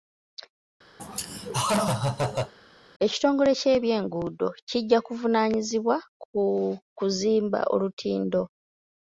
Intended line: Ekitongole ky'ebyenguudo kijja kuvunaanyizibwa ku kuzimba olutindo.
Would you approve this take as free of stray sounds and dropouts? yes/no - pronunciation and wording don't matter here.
no